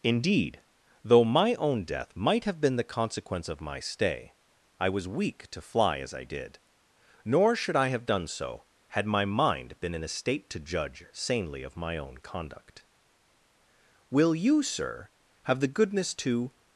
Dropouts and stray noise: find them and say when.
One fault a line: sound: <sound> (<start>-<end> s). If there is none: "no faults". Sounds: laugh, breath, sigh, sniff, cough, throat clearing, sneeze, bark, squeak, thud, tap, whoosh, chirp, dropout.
no faults